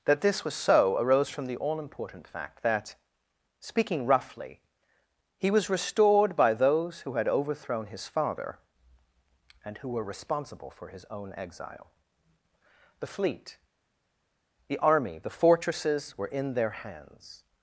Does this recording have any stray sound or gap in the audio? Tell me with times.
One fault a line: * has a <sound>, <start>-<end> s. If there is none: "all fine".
all fine